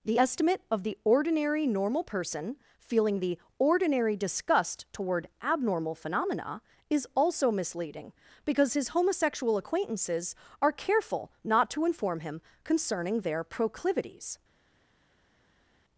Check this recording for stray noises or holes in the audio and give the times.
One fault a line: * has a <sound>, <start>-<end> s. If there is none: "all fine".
all fine